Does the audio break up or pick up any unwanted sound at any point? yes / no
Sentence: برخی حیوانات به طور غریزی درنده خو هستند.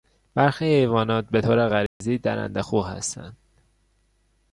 yes